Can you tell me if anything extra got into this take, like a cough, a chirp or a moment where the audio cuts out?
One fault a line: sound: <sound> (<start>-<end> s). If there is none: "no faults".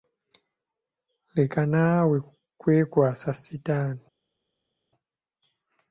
no faults